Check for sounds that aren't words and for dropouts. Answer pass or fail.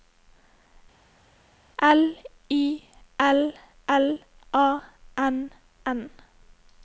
pass